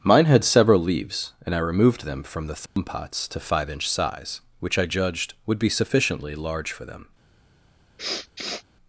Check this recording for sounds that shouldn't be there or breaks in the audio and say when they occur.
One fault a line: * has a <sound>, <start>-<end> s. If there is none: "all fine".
* has a dropout, 2.7-2.8 s
* has a sniff, 8.0-8.6 s